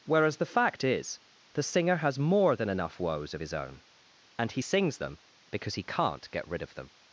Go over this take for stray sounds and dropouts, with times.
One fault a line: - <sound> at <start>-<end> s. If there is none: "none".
none